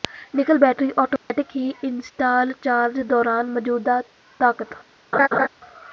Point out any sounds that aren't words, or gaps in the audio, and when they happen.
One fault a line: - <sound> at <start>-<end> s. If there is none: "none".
- dropout at 1.2-1.3 s
- laugh at 5.1-5.5 s